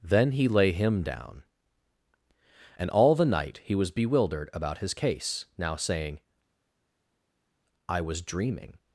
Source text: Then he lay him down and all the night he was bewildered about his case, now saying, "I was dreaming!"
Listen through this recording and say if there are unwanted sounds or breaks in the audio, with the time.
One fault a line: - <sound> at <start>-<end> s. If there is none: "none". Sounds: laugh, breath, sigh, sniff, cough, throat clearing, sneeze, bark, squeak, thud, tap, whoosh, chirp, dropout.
none